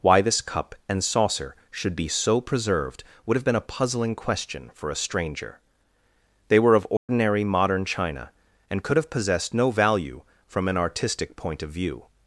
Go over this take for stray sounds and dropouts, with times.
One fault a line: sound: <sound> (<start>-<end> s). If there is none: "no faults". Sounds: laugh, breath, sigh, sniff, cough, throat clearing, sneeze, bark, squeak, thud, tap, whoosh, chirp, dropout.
sound: dropout (7.0-7.1 s)